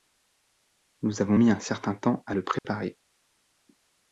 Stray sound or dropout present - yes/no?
yes